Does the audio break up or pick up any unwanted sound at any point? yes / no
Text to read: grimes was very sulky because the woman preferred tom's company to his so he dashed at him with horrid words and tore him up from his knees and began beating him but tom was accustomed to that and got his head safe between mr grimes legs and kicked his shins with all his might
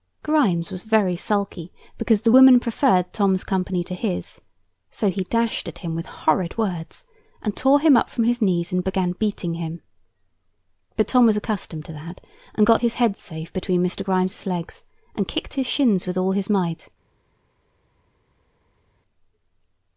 no